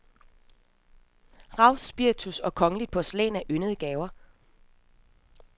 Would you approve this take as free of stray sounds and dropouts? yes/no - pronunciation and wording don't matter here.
yes